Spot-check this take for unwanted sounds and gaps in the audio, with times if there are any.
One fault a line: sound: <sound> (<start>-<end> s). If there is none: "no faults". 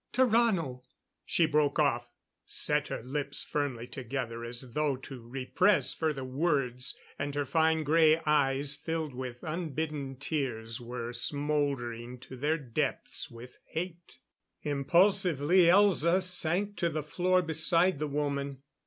no faults